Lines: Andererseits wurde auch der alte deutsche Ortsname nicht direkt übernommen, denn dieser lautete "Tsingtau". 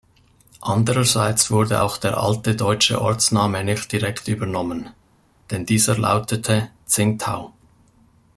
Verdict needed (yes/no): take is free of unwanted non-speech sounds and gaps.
yes